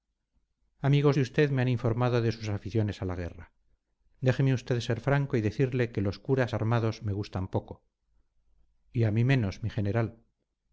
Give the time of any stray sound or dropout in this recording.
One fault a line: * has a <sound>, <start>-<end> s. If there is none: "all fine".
all fine